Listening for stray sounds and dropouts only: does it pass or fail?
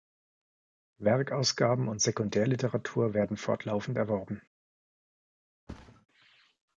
fail